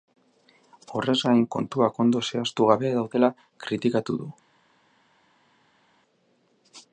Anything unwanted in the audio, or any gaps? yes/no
no